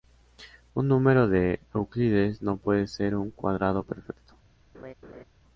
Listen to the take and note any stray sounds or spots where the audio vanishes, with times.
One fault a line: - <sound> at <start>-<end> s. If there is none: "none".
- laugh at 4.7-5.2 s